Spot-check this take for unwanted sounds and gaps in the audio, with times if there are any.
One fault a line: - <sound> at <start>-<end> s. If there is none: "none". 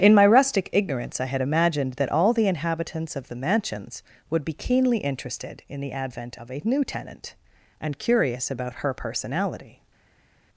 none